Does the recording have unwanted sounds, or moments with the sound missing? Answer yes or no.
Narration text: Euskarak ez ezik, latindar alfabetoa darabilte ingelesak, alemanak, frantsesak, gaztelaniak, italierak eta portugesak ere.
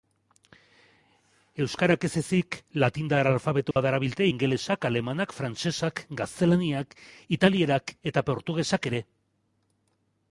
yes